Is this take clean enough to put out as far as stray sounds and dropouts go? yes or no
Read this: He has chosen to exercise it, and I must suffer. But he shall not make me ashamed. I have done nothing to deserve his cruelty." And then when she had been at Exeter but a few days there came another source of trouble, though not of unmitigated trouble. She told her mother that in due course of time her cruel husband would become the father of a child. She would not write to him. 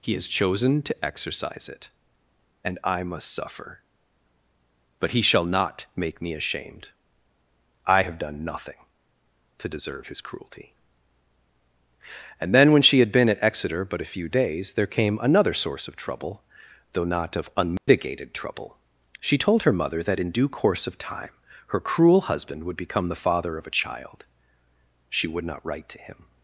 no